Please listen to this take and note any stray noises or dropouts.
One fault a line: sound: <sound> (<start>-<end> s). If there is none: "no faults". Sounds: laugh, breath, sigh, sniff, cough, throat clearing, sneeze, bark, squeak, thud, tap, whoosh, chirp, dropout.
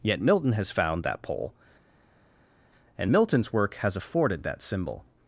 no faults